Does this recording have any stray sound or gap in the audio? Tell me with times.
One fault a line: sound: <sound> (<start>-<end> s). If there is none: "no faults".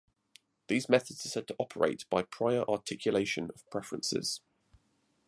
no faults